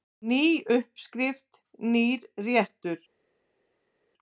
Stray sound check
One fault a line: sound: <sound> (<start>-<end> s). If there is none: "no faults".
no faults